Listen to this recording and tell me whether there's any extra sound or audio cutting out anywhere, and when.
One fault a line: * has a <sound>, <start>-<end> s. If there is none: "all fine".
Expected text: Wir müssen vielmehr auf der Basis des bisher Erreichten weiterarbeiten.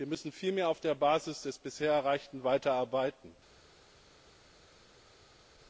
all fine